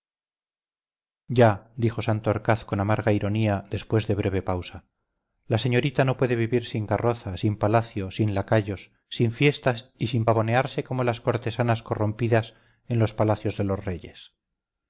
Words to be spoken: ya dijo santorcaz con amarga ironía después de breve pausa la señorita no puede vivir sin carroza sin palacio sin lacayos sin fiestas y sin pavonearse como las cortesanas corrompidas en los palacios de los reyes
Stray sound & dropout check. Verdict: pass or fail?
pass